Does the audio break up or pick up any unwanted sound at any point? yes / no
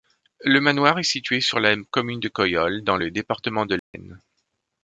yes